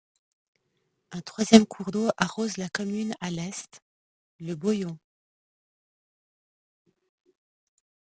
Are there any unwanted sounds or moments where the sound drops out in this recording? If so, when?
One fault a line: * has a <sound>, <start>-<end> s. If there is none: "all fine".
all fine